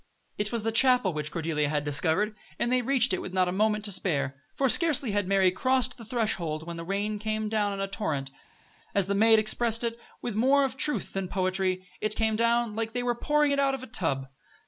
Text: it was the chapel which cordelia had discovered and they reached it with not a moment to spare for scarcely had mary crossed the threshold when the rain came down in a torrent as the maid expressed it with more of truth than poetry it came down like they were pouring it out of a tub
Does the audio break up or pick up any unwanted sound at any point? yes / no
no